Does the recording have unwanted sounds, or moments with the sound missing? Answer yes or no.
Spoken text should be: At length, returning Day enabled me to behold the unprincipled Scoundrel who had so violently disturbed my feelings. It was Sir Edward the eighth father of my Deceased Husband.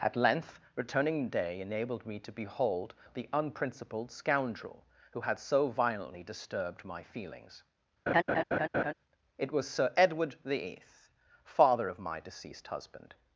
yes